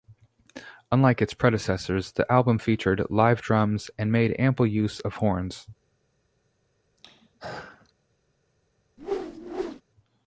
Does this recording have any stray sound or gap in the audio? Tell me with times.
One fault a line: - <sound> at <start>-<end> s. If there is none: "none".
- throat clearing at 7.0-7.9 s
- whoosh at 9.0-9.8 s